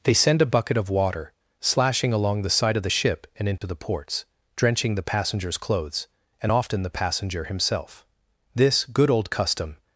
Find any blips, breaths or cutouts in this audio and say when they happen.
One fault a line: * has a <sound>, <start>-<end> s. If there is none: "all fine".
* has a dropout, 3.6-3.6 s